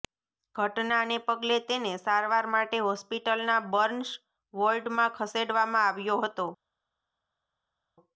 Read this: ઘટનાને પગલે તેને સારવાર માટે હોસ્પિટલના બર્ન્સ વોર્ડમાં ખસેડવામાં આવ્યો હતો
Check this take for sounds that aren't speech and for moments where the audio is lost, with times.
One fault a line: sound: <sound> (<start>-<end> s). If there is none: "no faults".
no faults